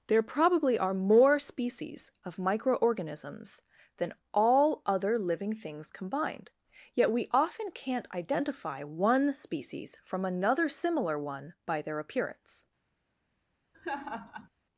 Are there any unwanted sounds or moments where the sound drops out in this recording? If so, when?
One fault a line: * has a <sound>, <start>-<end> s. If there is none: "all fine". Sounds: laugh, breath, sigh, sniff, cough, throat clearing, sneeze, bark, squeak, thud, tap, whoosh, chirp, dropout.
* has a laugh, 13.7-14.5 s